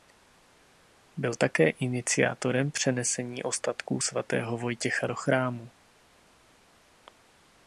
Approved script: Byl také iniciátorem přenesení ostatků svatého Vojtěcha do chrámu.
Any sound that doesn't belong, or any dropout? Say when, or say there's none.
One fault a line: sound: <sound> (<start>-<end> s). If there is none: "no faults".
no faults